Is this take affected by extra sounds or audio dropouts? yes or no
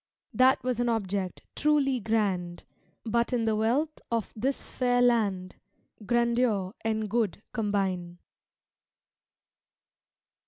no